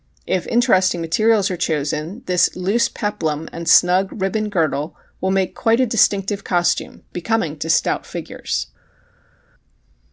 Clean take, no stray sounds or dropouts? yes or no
yes